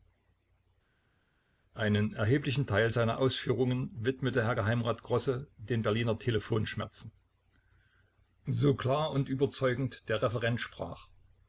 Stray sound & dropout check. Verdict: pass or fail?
pass